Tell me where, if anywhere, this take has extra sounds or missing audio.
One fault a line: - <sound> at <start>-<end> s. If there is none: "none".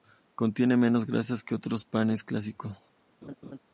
- laugh at 3.2-3.6 s